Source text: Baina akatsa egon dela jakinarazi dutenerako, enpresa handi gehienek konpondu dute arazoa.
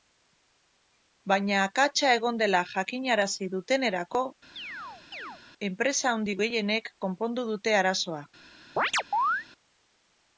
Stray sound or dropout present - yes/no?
yes